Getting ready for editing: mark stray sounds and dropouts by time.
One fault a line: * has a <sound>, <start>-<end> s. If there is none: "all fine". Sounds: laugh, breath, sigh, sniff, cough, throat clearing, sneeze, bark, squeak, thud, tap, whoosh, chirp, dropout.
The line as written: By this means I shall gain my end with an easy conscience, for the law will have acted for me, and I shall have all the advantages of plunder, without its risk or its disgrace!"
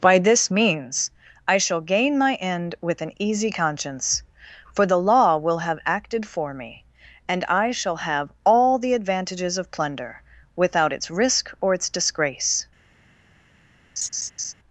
* has a laugh, 14.0-14.5 s